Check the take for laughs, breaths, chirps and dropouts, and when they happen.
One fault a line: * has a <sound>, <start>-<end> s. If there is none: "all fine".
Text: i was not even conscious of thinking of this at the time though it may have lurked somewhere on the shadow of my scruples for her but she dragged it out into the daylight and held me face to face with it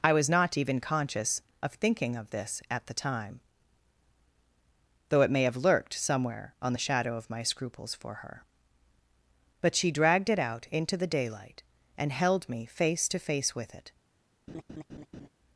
* has a laugh, 14.5-15.3 s